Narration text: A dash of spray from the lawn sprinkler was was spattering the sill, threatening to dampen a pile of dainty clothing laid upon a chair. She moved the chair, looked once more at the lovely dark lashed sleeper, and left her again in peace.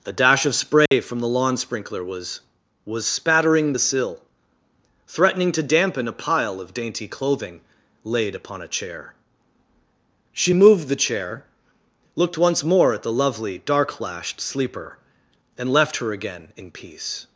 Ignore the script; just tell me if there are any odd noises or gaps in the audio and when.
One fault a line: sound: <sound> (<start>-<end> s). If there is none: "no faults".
sound: dropout (0.9-0.9 s)